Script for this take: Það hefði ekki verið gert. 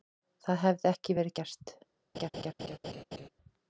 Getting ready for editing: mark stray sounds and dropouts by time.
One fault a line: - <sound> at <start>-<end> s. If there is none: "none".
- laugh at 2.1-3.3 s